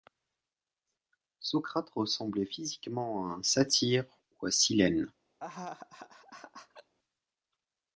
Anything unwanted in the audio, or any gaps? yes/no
yes